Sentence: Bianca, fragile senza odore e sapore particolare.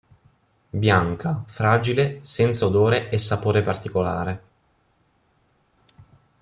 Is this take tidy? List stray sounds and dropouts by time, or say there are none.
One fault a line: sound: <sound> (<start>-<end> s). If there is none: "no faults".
no faults